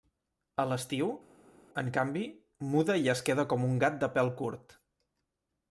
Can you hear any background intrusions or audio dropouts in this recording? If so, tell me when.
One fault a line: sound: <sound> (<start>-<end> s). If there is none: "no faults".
no faults